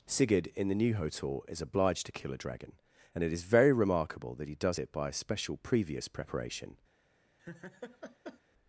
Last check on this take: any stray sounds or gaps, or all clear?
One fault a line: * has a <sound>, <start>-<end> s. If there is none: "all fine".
* has a laugh, 7.4-8.4 s